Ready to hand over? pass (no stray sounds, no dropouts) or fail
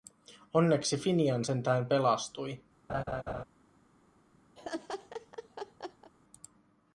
fail